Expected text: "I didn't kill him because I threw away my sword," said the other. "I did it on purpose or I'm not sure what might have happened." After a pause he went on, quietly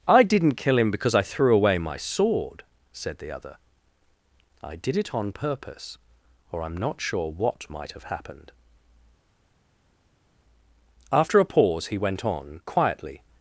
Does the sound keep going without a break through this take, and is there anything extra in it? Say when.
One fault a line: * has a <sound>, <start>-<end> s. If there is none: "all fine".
all fine